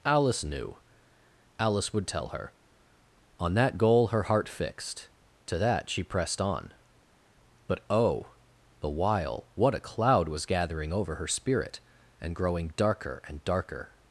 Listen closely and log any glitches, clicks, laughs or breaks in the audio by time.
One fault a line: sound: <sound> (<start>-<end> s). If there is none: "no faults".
no faults